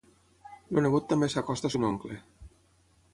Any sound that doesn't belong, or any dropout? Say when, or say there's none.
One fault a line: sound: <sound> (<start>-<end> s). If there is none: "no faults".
no faults